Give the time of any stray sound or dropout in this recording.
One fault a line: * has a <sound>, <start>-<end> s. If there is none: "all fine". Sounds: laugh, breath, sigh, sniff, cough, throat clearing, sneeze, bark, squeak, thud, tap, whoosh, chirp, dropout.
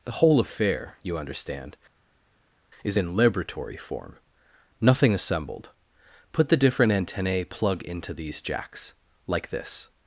all fine